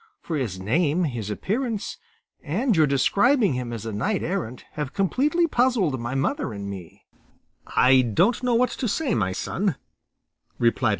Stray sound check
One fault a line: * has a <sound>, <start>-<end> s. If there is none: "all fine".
all fine